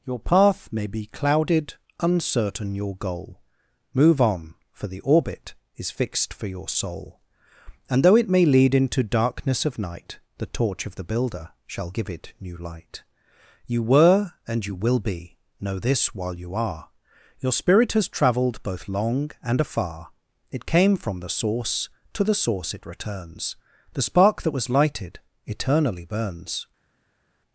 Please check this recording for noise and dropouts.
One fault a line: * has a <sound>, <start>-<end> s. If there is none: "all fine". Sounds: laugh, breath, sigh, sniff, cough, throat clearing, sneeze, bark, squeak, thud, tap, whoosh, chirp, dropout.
all fine